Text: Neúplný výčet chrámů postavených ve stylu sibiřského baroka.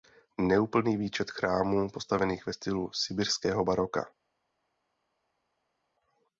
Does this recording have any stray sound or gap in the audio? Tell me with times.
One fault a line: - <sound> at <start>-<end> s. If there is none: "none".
none